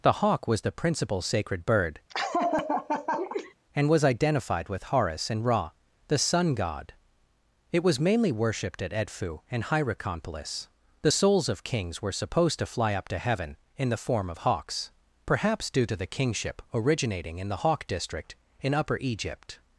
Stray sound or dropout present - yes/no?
yes